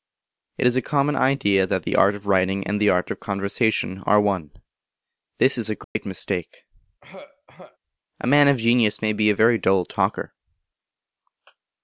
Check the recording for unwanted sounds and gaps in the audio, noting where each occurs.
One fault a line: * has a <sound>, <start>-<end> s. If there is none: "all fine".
* has a dropout, 5.8-6.0 s
* has a throat clearing, 7.0-7.8 s